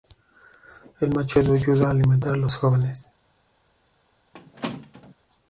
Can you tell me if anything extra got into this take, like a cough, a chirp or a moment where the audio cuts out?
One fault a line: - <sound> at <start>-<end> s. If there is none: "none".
- squeak at 4.3-5.1 s